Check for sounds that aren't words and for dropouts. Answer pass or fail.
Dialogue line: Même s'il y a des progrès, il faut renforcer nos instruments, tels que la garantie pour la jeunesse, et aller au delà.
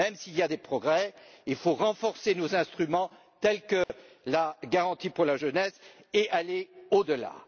fail